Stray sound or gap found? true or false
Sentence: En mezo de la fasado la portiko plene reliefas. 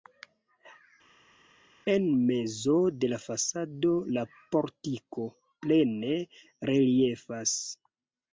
false